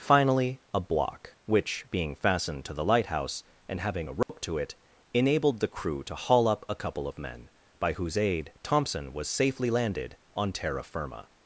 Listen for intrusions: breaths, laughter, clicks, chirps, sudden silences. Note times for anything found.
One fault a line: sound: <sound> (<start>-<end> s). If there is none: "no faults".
sound: dropout (4.2-4.3 s)